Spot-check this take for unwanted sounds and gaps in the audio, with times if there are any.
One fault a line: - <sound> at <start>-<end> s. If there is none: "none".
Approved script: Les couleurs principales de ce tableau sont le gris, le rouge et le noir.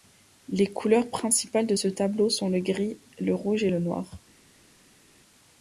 none